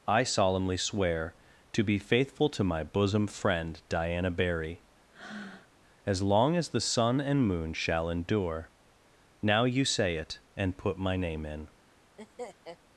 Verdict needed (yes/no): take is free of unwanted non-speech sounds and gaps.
no